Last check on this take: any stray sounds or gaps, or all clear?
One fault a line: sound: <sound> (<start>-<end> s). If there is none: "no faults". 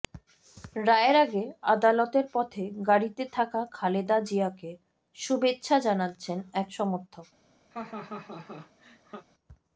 sound: laugh (7.7-9.3 s)